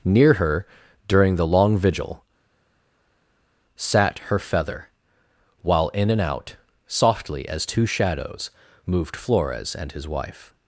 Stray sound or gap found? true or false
false